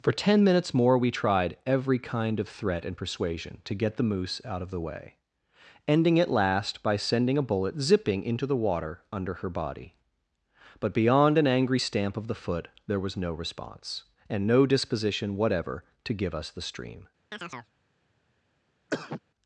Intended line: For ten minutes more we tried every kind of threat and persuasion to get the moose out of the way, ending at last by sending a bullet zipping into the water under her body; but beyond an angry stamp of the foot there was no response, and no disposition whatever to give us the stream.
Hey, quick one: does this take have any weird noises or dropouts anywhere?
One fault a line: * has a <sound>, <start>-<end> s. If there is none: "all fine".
* has a chirp, 17.3-17.7 s
* has a cough, 18.9-19.2 s